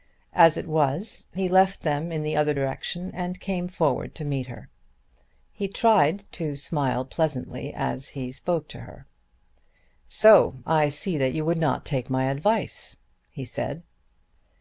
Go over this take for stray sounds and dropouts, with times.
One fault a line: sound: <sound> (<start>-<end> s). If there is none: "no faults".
no faults